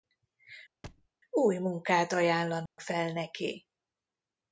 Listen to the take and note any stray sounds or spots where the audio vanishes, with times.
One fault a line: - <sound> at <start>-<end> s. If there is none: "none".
- thud at 0.8-1.1 s
- dropout at 2.7-2.8 s